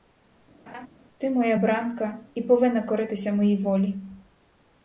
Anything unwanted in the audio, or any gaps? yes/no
yes